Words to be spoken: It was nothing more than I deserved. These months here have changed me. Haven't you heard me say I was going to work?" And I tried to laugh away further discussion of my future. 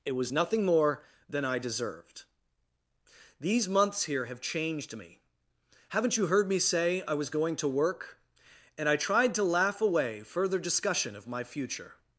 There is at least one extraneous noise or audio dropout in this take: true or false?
false